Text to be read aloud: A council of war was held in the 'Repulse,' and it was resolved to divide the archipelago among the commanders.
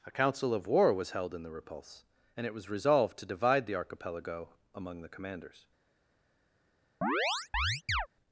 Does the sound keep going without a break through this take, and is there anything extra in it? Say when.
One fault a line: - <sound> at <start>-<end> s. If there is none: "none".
- chirp at 7.0-8.1 s